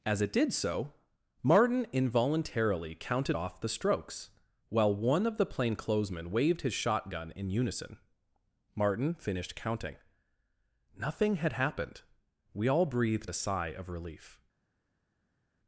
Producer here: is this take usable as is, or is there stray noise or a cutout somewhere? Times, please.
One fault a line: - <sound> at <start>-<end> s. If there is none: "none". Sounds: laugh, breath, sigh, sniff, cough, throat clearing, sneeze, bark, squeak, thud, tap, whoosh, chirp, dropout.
none